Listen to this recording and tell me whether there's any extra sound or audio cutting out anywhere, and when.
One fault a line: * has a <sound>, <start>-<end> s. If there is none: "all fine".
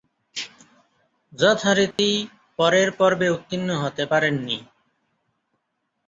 * has a dropout, 1.9-2.0 s